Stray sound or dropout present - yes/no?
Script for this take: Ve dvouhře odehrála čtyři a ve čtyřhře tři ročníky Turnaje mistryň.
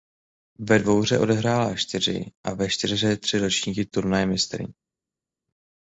no